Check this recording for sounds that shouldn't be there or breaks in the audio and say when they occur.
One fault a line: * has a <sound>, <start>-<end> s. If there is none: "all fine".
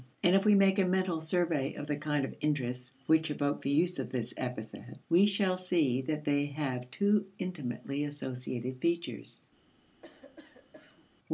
* has a cough, 10.0-11.1 s